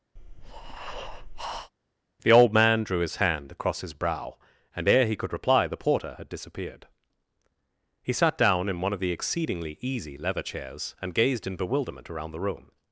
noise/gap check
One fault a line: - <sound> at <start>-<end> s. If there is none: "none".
- breath at 0.2-1.7 s